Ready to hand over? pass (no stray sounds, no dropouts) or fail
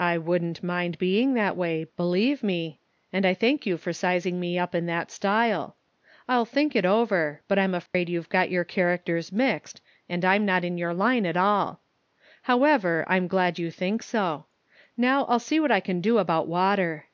fail